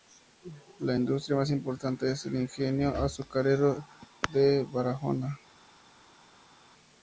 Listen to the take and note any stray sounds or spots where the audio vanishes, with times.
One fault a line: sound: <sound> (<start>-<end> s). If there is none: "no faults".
no faults